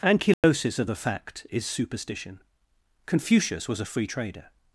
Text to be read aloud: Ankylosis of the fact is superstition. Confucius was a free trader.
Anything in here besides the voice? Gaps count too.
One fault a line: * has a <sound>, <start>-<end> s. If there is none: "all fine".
* has a dropout, 0.3-0.4 s